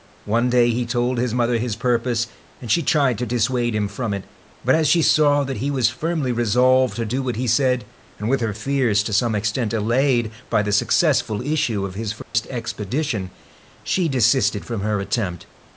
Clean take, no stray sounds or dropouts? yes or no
no